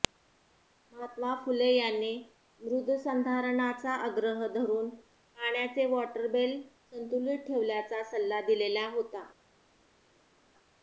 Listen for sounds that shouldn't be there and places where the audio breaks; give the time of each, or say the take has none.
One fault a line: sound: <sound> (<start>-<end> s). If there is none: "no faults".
no faults